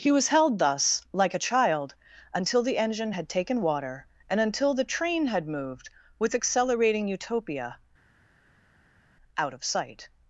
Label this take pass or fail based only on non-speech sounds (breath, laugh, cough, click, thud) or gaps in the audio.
pass